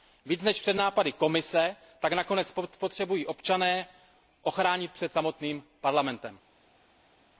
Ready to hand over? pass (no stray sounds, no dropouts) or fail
pass